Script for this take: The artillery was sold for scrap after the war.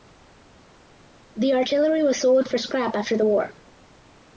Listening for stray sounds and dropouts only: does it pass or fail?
pass